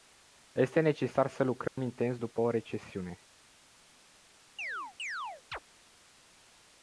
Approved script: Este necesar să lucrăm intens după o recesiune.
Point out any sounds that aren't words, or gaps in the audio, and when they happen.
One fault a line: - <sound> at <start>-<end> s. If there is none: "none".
- dropout at 1.7-1.8 s
- chirp at 4.6-5.6 s